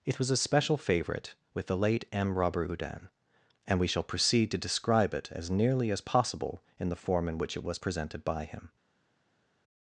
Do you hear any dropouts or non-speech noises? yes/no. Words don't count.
no